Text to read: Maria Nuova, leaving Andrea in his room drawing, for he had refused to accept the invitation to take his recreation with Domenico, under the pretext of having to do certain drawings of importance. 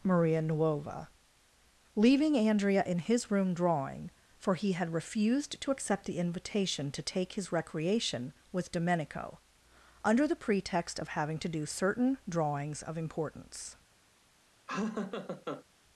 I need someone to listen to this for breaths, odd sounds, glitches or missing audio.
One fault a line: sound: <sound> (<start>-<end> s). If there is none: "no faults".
sound: laugh (14.7-15.6 s)